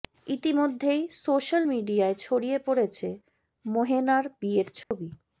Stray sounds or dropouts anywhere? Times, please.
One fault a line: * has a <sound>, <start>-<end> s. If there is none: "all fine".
* has a dropout, 4.8-4.9 s